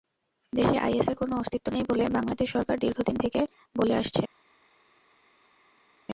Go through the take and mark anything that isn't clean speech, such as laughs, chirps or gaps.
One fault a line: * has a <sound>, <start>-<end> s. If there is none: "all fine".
all fine